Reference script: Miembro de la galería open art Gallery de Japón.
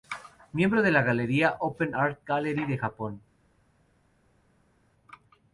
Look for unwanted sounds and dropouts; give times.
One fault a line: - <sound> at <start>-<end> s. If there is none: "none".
none